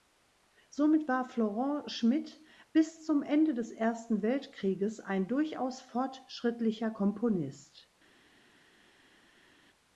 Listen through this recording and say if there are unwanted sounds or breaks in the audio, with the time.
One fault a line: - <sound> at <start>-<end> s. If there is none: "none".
none